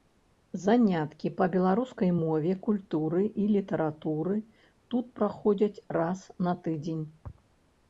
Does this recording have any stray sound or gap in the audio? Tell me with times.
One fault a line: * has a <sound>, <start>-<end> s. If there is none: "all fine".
all fine